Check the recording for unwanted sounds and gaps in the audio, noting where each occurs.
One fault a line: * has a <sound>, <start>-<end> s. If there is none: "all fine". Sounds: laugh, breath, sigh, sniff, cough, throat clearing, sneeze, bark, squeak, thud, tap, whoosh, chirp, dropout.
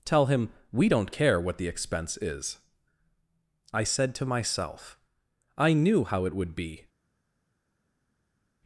all fine